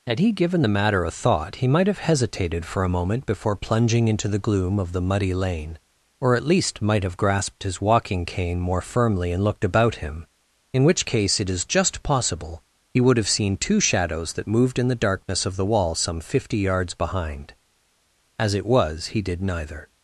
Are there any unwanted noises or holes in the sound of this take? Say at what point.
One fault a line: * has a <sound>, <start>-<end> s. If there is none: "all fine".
all fine